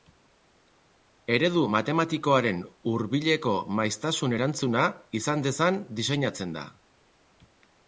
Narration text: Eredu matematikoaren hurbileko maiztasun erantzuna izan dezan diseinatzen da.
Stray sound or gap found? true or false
false